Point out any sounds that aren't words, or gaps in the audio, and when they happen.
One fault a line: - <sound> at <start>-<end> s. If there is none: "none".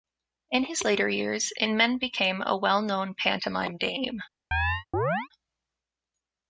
- chirp at 4.5-5.3 s